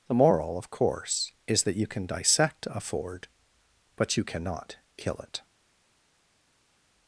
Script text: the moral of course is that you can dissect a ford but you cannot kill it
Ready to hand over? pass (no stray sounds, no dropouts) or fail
pass